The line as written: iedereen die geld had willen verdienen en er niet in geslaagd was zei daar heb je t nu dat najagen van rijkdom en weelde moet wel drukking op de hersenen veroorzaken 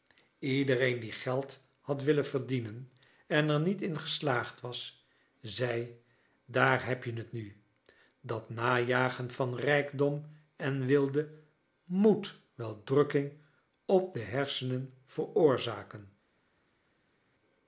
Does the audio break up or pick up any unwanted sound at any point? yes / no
no